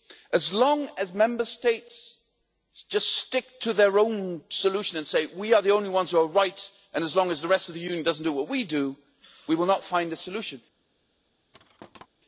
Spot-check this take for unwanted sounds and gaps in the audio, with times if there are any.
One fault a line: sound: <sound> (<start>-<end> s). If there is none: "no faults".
sound: thud (11.5-12.1 s)